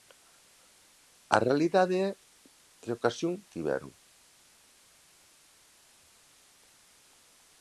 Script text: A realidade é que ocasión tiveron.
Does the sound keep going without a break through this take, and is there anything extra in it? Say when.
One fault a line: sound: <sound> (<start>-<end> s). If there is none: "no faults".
no faults